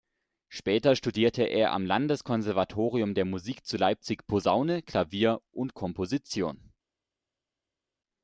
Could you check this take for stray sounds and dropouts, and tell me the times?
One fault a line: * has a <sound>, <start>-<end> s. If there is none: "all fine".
all fine